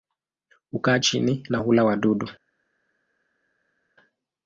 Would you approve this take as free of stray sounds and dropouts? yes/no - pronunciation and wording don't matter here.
yes